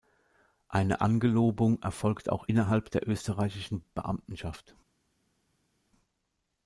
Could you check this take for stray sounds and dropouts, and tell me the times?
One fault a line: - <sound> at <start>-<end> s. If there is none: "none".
none